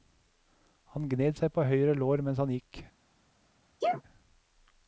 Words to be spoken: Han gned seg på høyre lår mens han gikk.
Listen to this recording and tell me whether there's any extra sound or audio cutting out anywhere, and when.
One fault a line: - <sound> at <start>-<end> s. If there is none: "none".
- sneeze at 3.8-4.0 s